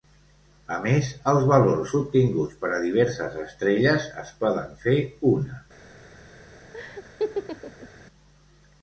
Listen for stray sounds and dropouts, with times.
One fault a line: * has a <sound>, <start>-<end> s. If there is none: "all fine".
* has a laugh, 6.7-7.9 s